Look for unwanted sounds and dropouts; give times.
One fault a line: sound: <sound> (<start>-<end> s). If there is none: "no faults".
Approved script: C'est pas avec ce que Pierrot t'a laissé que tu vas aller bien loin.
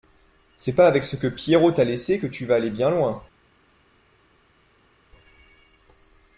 no faults